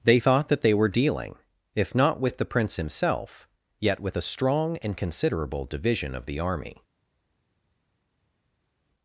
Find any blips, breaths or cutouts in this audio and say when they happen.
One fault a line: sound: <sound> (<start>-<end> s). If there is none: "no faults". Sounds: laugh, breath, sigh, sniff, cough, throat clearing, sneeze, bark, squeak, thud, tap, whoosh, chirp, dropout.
no faults